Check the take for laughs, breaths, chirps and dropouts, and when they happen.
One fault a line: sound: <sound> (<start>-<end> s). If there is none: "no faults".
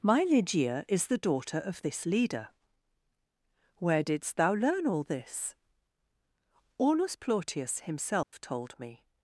sound: dropout (8.2-8.3 s)